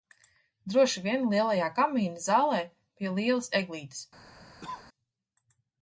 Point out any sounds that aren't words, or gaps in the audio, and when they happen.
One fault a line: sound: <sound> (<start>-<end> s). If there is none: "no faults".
sound: cough (4.6-4.9 s)